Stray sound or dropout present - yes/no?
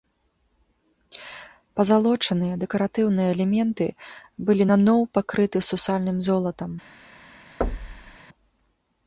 yes